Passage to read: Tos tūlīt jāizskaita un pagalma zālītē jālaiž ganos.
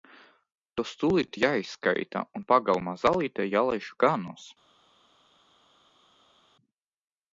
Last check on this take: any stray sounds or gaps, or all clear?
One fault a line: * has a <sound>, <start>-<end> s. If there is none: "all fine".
all fine